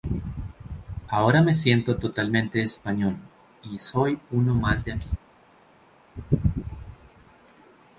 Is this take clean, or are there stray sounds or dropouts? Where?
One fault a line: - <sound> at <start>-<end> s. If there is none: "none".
none